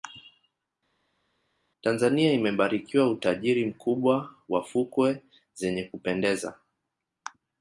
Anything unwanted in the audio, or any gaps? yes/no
no